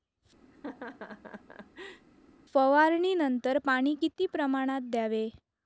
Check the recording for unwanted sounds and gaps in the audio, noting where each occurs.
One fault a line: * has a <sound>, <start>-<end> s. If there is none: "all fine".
* has a laugh, 0.5-2.1 s